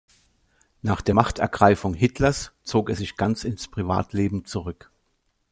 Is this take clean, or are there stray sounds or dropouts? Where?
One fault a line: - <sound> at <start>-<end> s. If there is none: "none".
none